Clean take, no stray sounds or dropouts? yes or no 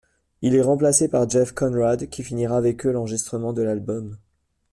yes